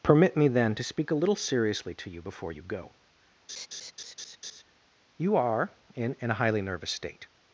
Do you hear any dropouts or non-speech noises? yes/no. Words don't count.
yes